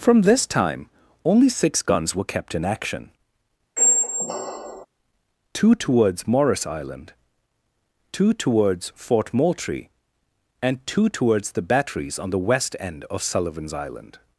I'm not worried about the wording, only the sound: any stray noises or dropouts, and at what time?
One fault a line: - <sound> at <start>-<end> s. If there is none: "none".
- squeak at 3.8-4.9 s